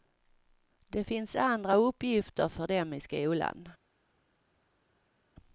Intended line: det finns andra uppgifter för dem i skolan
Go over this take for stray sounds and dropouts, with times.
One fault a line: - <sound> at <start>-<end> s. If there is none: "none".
none